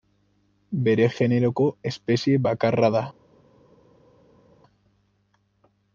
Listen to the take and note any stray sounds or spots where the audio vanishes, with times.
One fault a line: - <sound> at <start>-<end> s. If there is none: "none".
none